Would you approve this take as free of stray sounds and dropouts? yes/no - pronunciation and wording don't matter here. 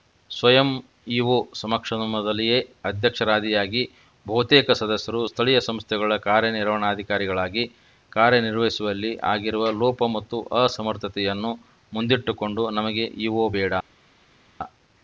yes